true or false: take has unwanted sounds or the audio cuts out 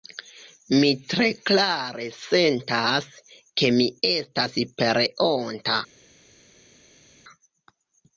false